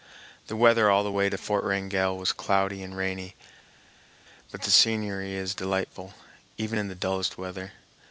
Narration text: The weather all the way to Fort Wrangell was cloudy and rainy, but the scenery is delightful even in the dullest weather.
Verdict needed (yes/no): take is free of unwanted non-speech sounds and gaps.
yes